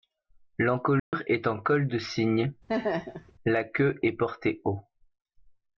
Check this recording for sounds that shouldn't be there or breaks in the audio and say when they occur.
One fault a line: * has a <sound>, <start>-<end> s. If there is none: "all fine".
* has a dropout, 1.0-1.1 s
* has a laugh, 2.7-3.3 s